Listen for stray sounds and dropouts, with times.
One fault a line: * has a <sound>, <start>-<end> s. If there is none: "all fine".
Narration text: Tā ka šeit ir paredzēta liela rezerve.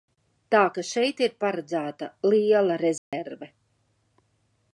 * has a dropout, 3.0-3.1 s